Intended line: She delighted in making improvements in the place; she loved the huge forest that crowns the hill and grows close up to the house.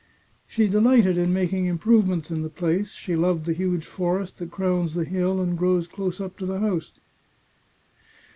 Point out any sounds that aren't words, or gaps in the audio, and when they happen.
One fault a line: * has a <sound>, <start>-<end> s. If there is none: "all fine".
all fine